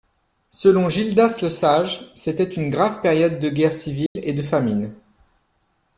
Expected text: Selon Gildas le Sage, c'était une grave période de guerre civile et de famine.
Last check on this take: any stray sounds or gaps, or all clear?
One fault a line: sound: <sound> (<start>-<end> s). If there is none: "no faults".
sound: dropout (4.1-4.2 s)